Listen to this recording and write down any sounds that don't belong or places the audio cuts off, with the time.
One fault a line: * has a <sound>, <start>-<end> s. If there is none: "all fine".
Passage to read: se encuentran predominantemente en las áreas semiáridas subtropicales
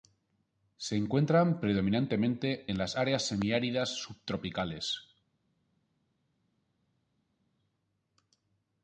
all fine